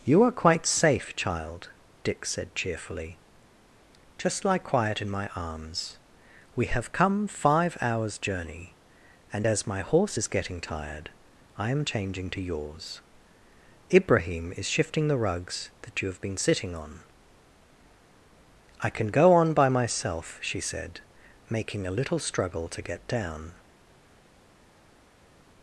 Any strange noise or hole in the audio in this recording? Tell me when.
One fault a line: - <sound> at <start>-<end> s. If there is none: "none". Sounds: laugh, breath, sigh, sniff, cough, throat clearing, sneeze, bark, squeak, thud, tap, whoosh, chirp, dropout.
none